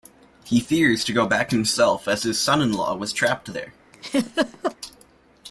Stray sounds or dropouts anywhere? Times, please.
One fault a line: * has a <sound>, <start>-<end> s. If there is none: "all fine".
* has a laugh, 3.9-4.8 s